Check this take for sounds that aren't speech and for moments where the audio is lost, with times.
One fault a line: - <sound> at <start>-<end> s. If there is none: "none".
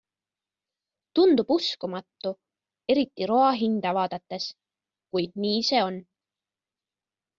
none